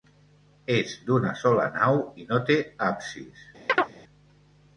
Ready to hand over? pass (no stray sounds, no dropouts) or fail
fail